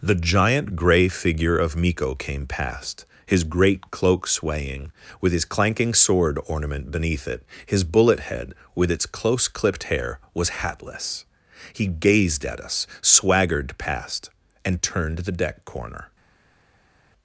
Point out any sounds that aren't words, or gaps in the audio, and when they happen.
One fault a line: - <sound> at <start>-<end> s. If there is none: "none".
none